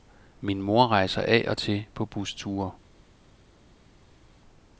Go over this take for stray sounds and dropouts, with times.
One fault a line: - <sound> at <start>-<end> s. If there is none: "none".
none